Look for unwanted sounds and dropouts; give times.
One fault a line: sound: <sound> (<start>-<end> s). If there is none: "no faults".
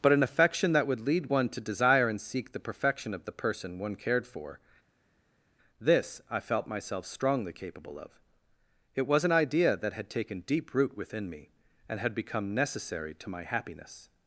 no faults